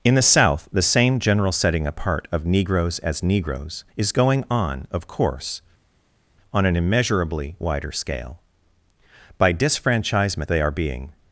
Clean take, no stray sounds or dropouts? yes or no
yes